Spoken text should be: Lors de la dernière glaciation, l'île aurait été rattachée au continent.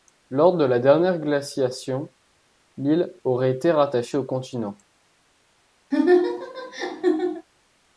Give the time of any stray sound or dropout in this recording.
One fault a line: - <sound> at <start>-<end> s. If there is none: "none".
- laugh at 5.9-7.5 s